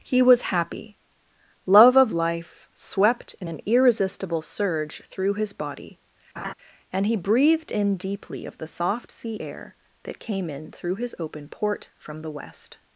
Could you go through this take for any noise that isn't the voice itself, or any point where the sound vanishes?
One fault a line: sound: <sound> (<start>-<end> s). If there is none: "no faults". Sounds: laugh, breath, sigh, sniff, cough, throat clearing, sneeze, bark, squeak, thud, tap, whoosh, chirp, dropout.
sound: laugh (6.4-6.5 s)